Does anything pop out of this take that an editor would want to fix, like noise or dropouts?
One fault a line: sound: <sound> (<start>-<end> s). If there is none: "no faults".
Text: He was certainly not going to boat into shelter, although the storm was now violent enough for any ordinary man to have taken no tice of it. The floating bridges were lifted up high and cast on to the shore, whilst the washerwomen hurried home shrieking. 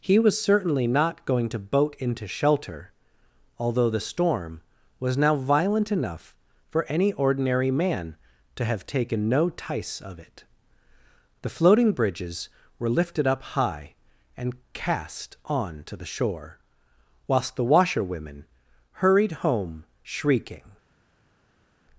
no faults